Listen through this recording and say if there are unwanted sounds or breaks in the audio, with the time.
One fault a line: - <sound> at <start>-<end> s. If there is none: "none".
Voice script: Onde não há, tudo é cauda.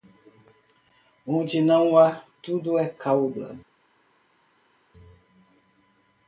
none